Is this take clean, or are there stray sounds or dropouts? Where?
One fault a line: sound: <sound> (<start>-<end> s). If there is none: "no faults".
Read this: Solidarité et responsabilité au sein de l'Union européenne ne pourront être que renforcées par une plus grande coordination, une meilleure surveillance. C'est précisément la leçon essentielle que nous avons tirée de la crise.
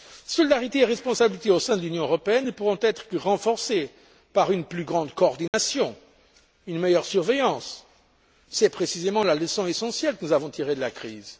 sound: dropout (5.5-5.5 s)